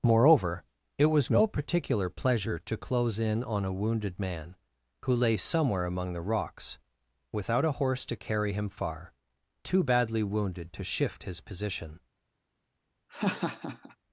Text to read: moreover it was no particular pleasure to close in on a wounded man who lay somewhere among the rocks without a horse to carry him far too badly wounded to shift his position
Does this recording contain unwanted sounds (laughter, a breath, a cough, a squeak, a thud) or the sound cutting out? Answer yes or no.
yes